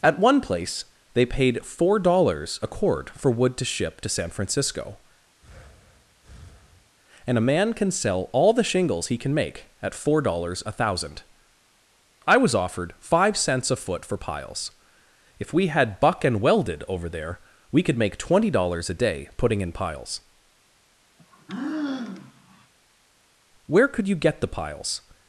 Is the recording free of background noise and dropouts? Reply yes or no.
no